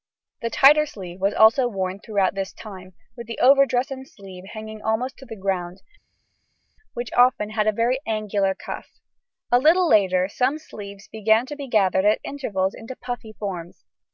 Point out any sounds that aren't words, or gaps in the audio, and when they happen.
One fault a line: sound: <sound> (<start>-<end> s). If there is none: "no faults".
no faults